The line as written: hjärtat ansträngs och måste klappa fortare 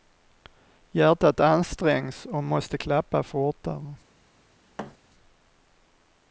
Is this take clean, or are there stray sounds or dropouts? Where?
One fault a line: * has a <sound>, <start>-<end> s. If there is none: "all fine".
* has a thud, 4.8-5.0 s